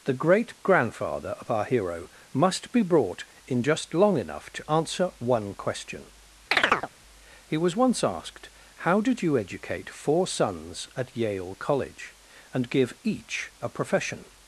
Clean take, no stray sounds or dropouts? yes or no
no